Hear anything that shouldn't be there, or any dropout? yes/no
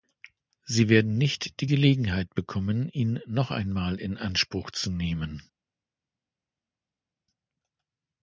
no